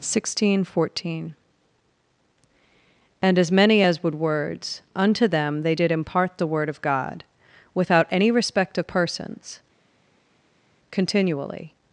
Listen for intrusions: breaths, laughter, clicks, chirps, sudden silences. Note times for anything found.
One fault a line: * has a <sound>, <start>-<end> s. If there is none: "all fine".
all fine